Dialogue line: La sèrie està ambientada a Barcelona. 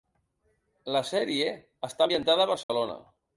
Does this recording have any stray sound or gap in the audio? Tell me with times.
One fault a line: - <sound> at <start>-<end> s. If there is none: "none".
- dropout at 2.6-2.7 s